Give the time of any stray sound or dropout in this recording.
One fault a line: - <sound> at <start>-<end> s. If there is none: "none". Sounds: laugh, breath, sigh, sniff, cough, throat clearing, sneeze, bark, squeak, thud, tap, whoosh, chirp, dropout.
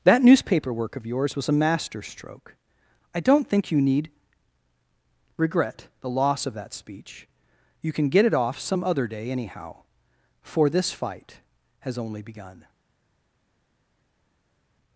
none